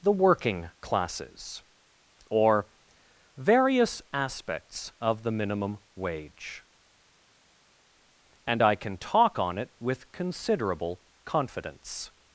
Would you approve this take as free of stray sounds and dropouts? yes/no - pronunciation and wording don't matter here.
yes